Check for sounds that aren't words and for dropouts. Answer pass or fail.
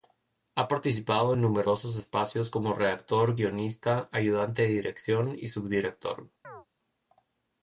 fail